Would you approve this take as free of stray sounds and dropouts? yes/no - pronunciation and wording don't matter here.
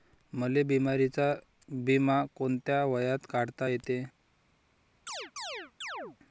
no